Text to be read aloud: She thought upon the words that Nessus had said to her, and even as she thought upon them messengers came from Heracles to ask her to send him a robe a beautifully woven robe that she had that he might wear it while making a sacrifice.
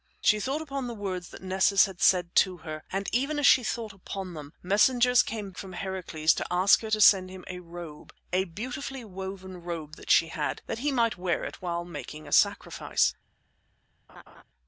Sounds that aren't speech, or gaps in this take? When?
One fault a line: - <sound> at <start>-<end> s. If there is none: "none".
- laugh at 14.1-14.4 s